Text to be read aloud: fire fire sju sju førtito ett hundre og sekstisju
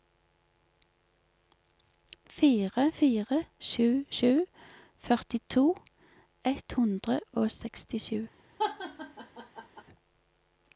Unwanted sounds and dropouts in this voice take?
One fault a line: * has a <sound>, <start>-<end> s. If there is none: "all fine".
* has a laugh, 8.6-9.8 s